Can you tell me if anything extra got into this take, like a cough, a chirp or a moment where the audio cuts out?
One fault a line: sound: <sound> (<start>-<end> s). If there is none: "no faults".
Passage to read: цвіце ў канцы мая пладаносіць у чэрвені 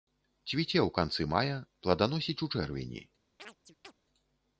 sound: chirp (3.4-3.9 s)